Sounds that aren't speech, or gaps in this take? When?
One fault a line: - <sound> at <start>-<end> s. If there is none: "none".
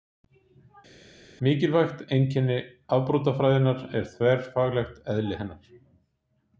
none